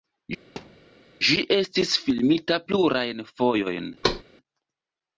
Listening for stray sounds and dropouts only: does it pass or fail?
fail